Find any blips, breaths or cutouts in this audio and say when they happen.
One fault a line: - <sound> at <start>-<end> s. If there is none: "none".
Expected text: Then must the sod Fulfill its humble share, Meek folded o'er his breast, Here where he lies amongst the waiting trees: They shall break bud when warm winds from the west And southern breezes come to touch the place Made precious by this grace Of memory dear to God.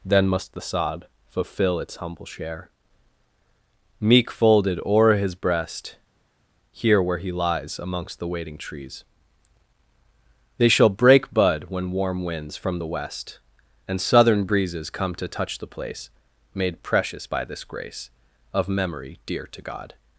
none